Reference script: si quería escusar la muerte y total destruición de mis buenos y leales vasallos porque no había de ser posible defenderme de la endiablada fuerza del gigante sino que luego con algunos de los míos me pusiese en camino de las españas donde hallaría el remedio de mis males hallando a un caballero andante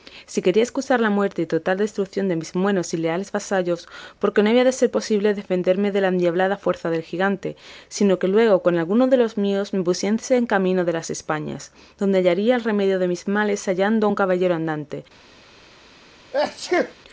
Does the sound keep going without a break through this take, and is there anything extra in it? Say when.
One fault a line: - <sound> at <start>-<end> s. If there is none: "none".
- sneeze at 16.3-16.9 s